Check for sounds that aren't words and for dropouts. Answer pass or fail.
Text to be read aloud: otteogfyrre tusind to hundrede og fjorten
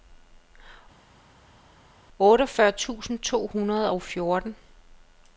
pass